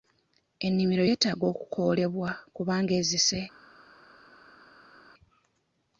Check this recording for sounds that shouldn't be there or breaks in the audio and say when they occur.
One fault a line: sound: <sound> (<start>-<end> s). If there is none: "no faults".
no faults